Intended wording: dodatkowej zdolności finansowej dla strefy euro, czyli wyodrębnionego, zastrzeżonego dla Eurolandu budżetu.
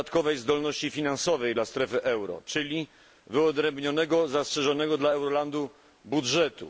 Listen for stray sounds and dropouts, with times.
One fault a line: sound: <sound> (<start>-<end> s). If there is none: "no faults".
no faults